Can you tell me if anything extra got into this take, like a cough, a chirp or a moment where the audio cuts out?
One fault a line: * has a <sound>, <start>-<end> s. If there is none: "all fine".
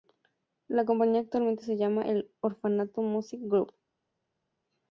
all fine